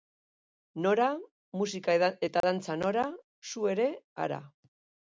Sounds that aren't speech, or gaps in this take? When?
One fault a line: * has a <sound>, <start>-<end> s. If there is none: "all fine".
* has a dropout, 2.4-2.4 s